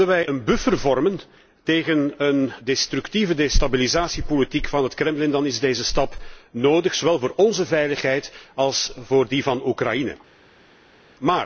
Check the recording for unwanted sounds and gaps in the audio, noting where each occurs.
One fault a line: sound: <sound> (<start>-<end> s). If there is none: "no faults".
no faults